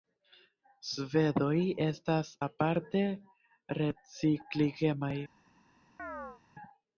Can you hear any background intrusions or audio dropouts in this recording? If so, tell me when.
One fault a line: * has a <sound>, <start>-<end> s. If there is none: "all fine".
* has a chirp, 6.0-6.4 s